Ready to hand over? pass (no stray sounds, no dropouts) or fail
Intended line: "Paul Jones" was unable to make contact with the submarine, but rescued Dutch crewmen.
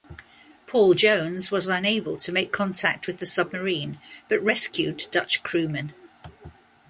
pass